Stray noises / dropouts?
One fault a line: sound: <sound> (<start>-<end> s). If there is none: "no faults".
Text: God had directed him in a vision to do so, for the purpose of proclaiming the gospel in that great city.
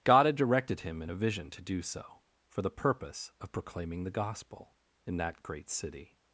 no faults